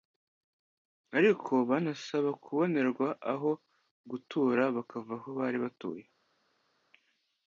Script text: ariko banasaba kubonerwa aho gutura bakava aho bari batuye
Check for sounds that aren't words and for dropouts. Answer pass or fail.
pass